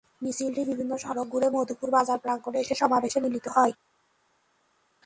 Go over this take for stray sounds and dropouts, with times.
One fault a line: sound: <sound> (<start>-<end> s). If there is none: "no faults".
no faults